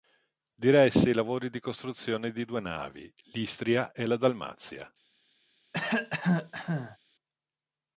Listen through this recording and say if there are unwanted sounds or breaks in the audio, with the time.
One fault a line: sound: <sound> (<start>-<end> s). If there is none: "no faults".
sound: cough (5.7-7.0 s)